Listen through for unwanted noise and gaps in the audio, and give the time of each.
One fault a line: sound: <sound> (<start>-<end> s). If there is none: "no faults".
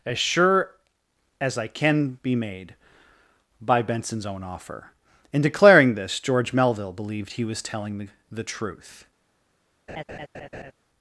sound: laugh (9.9-10.7 s)